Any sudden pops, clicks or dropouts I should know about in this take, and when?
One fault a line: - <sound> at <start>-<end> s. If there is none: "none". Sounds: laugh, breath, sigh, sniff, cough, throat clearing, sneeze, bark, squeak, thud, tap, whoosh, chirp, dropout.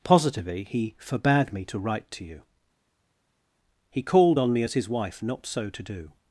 none